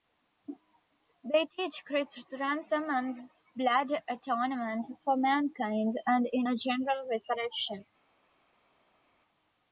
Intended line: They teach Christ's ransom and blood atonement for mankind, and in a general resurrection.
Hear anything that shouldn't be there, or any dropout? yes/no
no